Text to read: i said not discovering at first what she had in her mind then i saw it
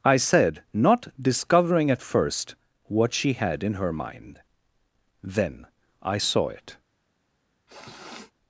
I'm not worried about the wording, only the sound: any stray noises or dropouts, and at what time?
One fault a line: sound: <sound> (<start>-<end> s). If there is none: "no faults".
sound: sniff (7.7-8.3 s)